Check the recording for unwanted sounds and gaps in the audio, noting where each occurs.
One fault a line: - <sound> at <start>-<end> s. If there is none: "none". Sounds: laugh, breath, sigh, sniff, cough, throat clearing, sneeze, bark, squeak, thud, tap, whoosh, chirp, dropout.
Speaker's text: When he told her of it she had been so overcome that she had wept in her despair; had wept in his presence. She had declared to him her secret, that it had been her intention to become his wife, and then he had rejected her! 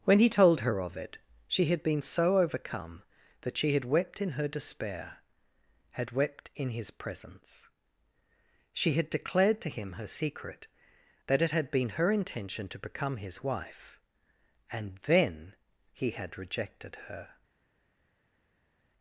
none